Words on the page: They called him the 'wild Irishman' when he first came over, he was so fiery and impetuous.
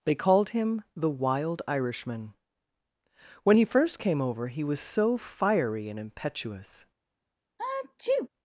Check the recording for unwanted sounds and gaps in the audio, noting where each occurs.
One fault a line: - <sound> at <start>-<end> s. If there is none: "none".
- sneeze at 7.6-8.3 s